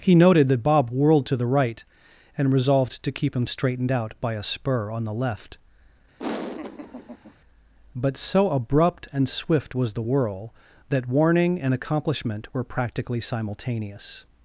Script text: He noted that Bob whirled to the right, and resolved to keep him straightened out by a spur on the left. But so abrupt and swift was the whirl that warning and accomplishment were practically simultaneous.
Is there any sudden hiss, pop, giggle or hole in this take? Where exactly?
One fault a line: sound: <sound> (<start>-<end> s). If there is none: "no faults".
sound: laugh (6.2-7.3 s)